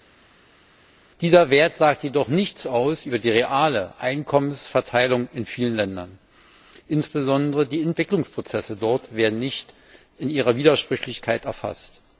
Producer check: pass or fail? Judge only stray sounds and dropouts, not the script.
pass